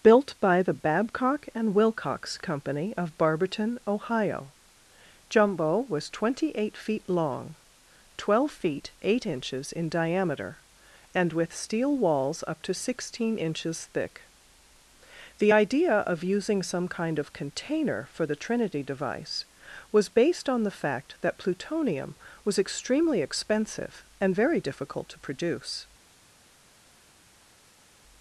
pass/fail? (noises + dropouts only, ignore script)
pass